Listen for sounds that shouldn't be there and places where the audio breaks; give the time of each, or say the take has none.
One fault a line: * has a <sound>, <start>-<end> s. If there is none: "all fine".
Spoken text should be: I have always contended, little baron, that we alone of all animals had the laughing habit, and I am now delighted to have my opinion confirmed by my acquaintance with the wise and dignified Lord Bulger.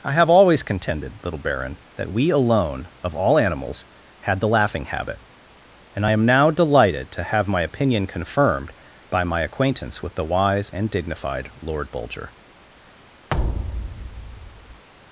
* has a thud, 13.3-14.8 s